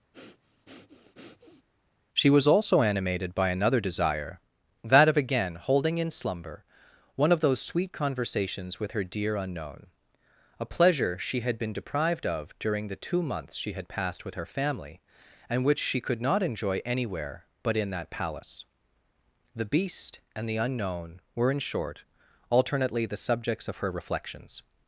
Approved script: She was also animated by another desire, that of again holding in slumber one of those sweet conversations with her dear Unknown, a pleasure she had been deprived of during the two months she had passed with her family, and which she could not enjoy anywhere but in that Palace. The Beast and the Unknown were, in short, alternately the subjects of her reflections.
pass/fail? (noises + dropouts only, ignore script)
fail